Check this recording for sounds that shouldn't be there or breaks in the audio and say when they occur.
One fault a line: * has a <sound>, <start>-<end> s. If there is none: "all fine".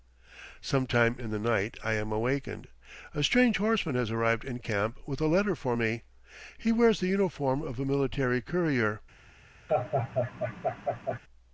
* has a laugh, 9.7-11.2 s